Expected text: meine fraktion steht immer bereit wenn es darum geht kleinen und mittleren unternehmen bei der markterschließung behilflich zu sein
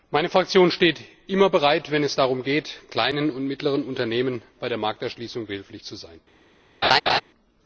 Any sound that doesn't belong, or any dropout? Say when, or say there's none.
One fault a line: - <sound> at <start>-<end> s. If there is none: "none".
- laugh at 6.8-7.2 s